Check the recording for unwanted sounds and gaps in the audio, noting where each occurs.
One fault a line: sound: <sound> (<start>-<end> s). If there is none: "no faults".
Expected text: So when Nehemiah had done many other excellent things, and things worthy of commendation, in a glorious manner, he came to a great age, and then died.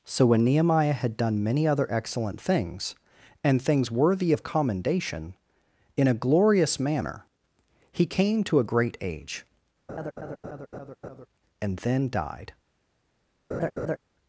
sound: laugh (9.9-11.3 s)
sound: laugh (13.5-14.0 s)